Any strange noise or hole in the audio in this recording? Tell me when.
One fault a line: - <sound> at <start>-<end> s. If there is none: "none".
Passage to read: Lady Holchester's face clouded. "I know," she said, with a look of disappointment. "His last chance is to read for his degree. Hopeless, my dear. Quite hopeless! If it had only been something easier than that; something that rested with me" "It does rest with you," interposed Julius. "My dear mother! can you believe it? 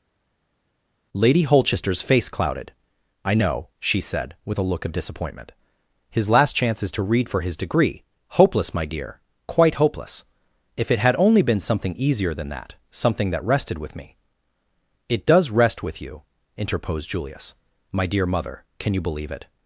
none